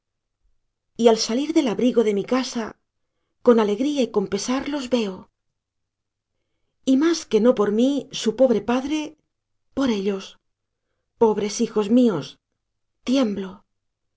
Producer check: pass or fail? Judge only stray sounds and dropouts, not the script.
pass